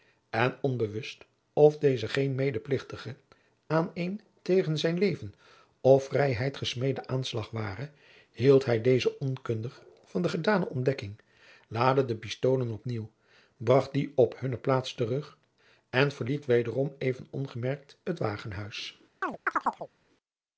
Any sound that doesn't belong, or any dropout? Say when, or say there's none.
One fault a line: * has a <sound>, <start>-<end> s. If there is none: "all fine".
* has a chirp, 19.2-19.9 s